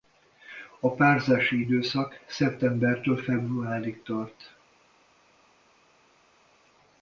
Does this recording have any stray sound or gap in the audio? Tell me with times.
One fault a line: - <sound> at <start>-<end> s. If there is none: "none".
none